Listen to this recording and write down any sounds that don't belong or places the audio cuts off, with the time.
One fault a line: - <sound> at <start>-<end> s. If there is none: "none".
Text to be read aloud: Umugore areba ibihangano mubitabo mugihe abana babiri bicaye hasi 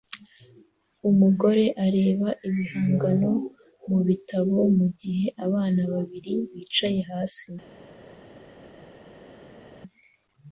none